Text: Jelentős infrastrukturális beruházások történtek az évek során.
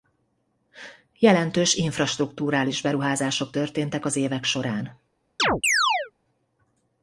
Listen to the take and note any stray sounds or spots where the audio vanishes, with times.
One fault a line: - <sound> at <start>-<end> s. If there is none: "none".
- chirp at 5.4-6.1 s